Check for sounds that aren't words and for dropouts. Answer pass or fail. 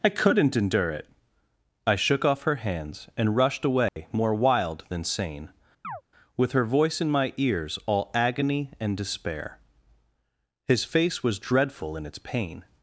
fail